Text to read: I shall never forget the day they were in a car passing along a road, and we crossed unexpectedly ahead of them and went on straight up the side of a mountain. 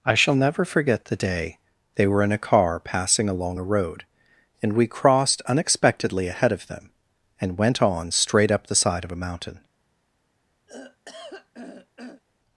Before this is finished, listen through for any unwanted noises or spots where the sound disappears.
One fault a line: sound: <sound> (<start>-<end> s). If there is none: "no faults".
sound: throat clearing (10.7-12.2 s)